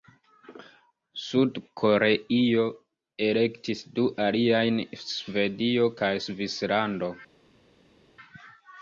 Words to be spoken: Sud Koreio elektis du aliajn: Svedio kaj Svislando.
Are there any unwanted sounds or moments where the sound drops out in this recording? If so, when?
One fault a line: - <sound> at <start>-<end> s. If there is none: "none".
none